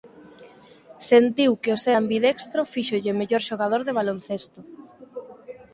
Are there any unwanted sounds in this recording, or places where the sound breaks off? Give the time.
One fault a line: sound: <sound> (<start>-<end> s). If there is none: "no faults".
no faults